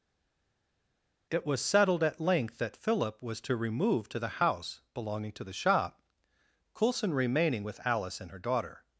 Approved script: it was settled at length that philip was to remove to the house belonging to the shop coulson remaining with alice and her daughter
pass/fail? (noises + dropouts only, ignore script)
pass